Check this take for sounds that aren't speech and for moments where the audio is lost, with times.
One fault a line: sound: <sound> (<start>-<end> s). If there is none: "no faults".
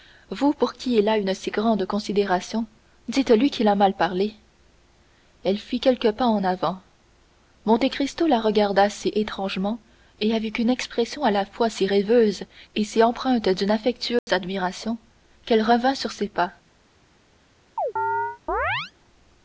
sound: dropout (14.2-14.3 s)
sound: chirp (17.8-18.9 s)